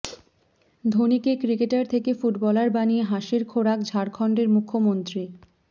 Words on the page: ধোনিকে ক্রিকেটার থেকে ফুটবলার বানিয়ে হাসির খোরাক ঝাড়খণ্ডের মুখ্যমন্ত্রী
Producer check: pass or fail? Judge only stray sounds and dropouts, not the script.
pass